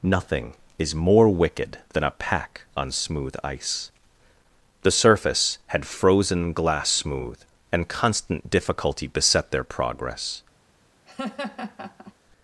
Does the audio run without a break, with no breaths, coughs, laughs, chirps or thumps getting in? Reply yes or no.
no